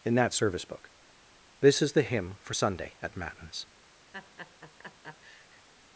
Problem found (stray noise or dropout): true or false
true